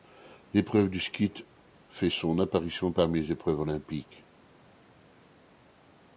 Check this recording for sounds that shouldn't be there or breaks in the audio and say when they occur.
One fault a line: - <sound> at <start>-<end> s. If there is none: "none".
none